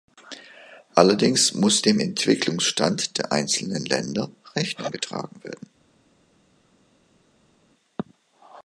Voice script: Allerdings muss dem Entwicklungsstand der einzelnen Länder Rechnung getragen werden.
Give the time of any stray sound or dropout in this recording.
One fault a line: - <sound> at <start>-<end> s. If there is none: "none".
none